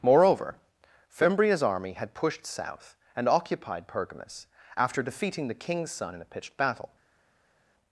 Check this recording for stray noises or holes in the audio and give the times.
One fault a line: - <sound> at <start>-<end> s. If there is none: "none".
none